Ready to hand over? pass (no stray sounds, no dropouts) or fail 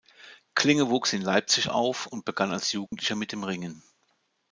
fail